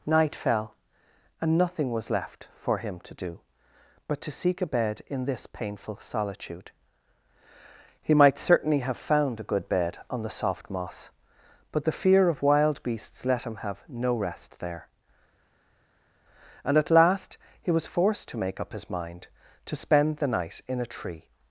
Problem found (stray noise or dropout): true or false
false